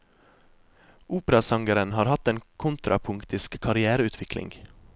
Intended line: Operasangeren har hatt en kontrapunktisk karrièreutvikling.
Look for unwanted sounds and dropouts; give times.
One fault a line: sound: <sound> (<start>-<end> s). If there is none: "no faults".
no faults